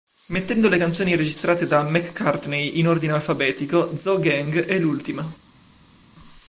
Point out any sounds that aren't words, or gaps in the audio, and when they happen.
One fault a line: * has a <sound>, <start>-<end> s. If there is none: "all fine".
all fine